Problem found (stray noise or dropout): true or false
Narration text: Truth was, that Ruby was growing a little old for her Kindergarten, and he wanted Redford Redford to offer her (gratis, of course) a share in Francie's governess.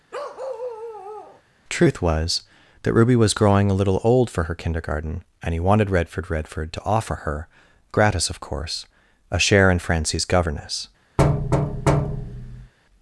true